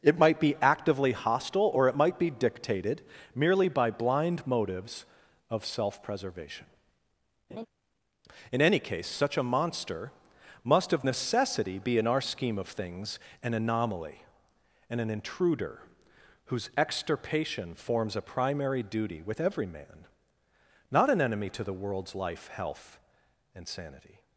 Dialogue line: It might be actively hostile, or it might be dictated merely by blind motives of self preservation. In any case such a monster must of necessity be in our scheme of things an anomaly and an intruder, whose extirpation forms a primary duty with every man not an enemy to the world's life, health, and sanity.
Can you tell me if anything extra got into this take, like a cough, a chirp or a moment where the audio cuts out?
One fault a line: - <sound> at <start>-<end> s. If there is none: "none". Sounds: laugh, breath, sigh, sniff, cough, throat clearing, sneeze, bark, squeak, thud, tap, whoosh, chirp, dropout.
- laugh at 7.5-7.7 s